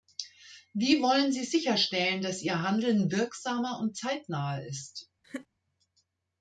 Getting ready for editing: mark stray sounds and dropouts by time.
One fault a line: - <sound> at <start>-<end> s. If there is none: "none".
- laugh at 5.2-5.5 s